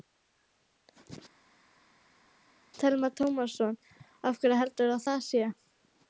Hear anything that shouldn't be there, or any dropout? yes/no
no